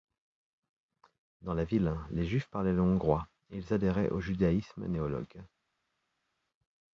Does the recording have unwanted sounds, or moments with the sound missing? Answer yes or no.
no